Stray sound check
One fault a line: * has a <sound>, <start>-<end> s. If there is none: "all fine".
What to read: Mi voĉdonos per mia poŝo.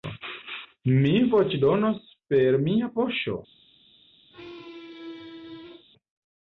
* has a squeak, 4.3-5.9 s